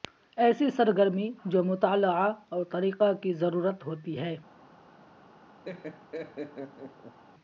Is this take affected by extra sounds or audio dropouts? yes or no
yes